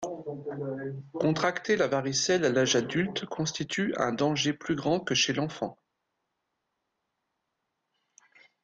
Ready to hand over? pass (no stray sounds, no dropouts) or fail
pass